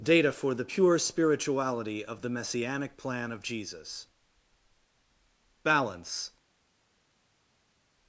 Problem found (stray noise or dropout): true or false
false